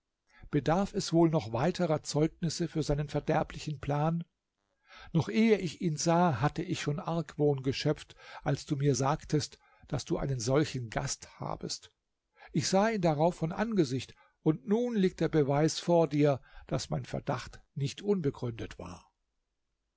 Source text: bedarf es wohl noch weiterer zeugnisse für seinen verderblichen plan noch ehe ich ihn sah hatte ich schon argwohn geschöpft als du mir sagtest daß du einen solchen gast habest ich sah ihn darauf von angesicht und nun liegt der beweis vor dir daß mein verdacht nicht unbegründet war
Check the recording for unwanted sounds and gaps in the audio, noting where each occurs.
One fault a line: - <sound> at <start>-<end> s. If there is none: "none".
none